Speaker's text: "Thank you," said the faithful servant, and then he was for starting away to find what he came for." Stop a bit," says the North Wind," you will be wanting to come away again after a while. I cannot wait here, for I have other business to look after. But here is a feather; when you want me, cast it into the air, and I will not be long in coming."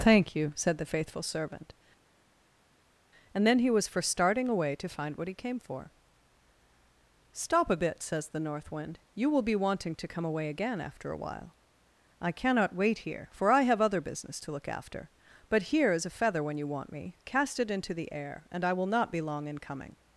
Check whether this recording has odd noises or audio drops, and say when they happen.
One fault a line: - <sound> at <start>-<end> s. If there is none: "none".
none